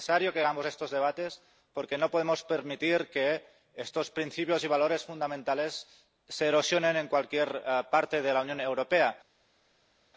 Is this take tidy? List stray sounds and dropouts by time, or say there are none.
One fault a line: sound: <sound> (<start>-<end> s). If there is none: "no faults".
no faults